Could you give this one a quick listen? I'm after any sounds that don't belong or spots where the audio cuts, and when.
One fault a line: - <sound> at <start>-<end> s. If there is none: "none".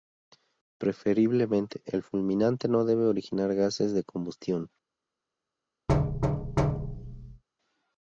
- thud at 5.9-7.4 s